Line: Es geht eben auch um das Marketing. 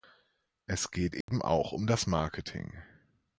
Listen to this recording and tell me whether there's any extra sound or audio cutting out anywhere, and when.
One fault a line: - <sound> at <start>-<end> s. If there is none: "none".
- dropout at 1.2-1.3 s